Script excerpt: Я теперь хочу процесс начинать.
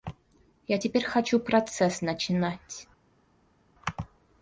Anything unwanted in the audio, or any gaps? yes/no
no